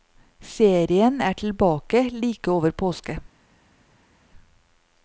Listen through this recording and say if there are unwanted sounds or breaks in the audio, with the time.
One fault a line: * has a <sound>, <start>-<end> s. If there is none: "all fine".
all fine